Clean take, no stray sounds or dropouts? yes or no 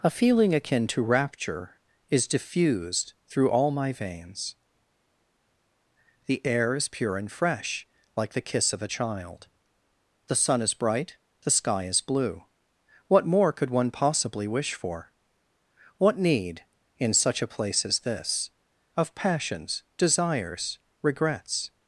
yes